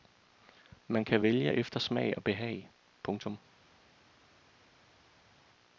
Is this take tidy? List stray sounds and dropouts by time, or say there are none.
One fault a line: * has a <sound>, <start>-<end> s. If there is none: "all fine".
all fine